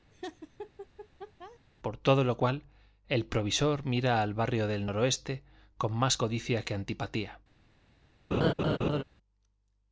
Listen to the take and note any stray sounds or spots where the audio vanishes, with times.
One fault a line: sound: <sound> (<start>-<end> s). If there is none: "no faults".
sound: laugh (0.1-1.6 s)
sound: laugh (8.3-9.0 s)